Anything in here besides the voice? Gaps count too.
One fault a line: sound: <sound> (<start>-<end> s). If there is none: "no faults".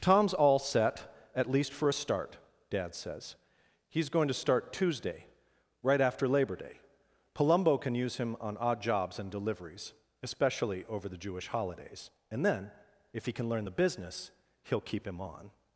no faults